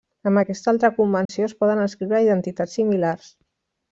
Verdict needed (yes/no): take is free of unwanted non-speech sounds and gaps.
no